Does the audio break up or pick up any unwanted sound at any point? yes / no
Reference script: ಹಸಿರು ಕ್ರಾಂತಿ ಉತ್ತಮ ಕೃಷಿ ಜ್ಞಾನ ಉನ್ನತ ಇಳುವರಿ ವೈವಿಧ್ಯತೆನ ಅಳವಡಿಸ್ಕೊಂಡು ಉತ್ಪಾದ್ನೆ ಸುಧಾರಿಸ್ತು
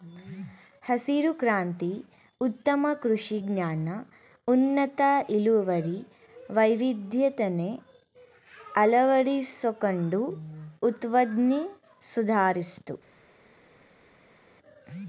no